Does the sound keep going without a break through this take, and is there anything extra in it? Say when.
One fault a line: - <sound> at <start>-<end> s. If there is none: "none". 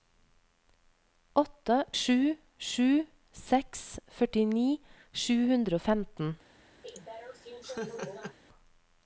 - laugh at 6.8-8.4 s